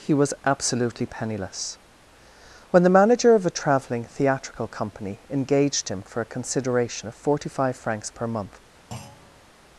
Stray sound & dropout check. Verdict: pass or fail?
fail